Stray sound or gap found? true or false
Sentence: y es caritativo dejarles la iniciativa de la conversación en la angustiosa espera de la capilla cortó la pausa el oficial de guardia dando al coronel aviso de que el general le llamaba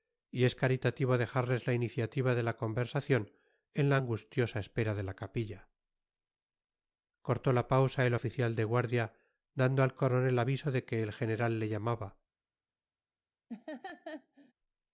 true